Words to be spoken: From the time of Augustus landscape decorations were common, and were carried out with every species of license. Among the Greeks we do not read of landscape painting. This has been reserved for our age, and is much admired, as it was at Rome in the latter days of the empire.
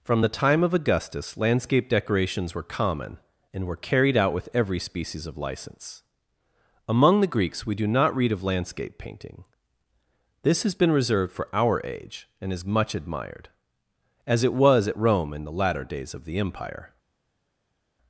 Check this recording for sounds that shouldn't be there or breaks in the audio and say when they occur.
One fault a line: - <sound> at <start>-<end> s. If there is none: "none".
none